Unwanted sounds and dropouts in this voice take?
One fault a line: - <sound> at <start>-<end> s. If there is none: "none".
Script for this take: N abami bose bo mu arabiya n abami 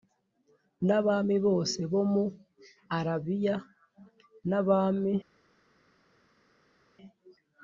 none